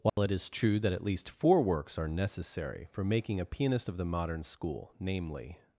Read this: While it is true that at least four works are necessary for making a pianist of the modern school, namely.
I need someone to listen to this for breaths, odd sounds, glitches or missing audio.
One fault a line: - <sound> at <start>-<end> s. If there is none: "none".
- dropout at 0.1-0.2 s